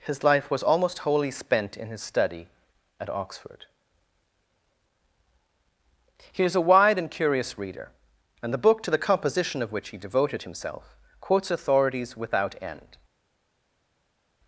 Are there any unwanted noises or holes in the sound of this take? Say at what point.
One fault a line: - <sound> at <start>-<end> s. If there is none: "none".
none